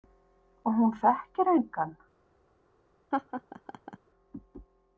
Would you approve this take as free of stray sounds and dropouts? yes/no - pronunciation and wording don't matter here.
no